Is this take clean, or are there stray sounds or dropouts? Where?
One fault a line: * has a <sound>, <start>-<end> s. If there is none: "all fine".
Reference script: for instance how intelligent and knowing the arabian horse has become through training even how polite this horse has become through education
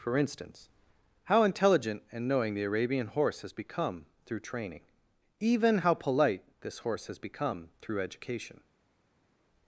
all fine